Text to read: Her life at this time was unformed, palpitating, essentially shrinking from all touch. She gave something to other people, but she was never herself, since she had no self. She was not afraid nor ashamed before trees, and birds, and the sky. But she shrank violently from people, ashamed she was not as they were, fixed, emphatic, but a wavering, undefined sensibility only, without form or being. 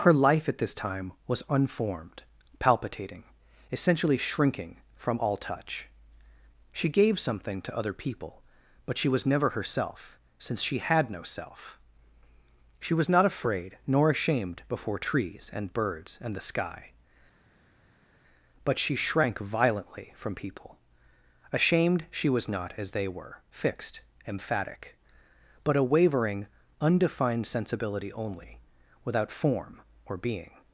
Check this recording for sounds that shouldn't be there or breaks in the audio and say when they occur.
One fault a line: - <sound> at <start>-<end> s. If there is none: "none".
none